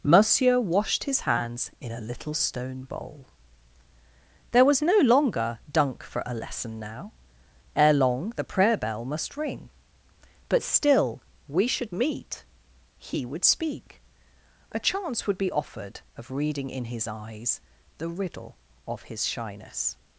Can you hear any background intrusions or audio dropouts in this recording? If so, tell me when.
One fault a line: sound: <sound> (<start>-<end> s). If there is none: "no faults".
no faults